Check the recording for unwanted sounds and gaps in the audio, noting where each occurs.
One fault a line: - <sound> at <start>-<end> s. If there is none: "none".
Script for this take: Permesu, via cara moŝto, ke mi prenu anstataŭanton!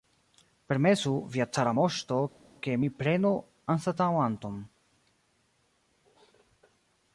none